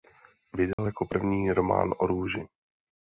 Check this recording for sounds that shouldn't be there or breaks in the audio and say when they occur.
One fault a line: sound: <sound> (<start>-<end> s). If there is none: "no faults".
sound: dropout (0.7-0.8 s)